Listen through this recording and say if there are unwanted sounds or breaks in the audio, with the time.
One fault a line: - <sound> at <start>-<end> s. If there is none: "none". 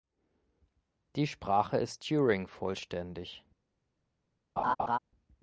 - laugh at 4.6-5.0 s